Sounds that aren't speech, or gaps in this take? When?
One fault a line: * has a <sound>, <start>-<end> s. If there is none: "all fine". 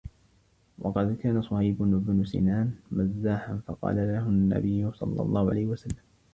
all fine